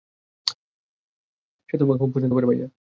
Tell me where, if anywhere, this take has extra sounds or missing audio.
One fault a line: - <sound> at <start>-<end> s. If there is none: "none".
none